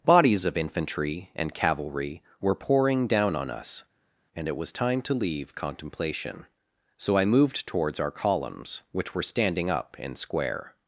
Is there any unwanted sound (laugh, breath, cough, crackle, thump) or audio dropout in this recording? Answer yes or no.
no